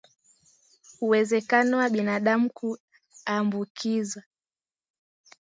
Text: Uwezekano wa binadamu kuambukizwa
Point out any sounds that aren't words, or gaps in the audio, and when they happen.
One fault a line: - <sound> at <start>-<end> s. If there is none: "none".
none